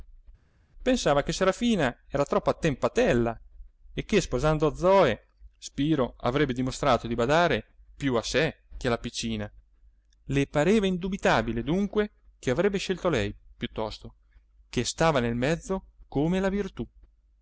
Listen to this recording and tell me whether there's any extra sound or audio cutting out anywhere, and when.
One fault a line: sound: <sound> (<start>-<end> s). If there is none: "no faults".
no faults